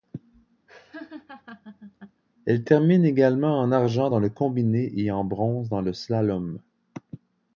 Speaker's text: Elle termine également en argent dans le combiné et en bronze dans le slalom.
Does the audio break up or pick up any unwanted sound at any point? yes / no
yes